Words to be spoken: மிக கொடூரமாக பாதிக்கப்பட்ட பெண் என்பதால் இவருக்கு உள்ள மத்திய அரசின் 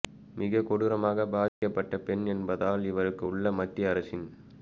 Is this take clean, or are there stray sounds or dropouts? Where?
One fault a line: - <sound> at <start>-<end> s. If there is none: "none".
- dropout at 1.5-1.6 s